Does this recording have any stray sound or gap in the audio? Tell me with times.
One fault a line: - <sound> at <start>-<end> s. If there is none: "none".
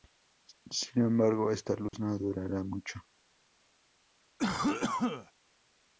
- dropout at 1.9-1.9 s
- cough at 4.4-5.3 s